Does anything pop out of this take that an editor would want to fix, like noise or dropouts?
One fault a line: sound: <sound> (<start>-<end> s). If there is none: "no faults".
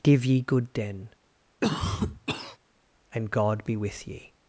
sound: cough (1.6-2.6 s)